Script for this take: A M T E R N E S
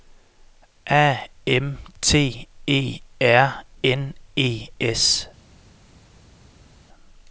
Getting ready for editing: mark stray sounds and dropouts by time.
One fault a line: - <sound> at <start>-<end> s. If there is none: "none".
none